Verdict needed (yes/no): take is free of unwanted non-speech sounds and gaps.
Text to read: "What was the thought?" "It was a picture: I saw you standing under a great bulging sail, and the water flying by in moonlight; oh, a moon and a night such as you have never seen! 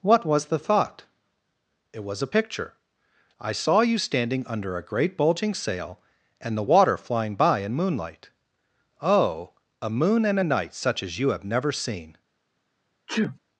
no